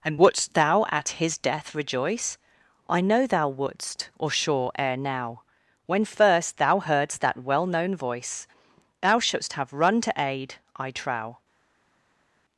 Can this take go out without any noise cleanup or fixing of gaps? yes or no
yes